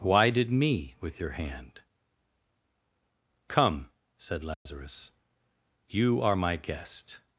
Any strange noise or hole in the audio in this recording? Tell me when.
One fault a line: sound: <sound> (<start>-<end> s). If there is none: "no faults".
sound: dropout (4.5-4.7 s)